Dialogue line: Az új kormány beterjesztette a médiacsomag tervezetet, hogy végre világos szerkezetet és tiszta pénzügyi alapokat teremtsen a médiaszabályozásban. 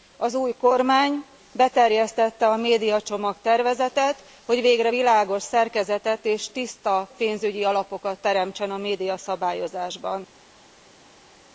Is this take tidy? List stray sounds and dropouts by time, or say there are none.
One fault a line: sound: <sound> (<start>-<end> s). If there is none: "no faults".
no faults